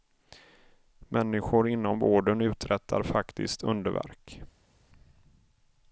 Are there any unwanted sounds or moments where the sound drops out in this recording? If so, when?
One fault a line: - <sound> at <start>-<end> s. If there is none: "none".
none